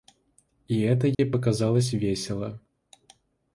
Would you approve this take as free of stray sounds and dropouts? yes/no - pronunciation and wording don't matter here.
no